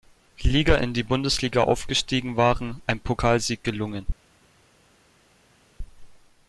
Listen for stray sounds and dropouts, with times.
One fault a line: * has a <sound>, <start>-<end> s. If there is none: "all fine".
all fine